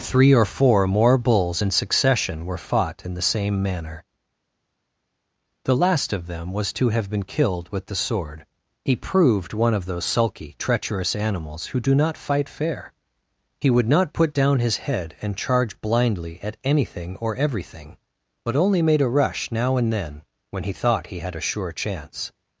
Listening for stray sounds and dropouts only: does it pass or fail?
pass